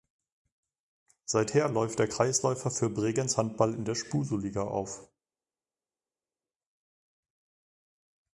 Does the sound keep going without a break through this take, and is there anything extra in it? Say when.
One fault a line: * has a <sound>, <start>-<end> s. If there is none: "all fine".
all fine